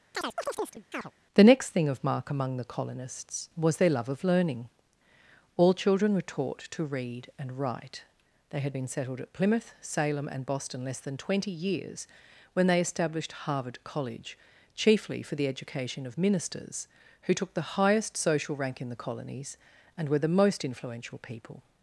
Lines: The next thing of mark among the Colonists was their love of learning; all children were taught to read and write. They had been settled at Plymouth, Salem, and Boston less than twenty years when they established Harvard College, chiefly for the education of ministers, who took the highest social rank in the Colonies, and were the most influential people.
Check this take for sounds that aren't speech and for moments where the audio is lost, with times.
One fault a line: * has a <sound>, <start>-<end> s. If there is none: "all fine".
* has a chirp, 0.1-1.1 s